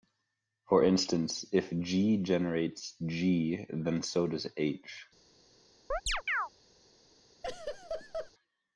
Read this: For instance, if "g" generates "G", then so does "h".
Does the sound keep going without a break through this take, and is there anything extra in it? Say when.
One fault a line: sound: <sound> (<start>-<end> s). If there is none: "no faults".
sound: chirp (5.9-6.5 s)
sound: laugh (7.4-8.3 s)